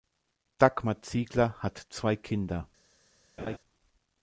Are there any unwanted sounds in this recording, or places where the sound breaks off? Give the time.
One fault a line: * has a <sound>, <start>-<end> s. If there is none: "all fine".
* has a laugh, 3.4-3.6 s